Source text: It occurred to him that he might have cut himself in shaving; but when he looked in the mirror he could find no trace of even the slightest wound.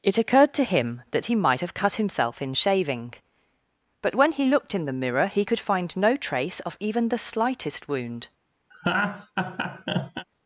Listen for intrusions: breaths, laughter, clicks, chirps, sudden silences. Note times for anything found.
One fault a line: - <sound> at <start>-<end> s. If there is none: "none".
- laugh at 8.7-10.3 s